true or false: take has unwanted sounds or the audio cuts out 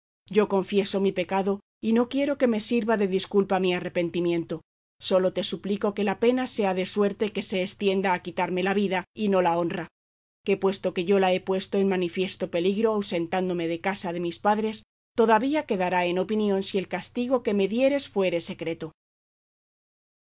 false